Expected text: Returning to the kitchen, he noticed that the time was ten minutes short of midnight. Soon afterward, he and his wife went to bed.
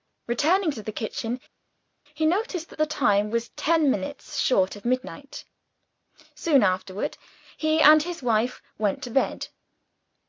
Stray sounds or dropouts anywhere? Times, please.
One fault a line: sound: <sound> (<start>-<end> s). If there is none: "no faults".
no faults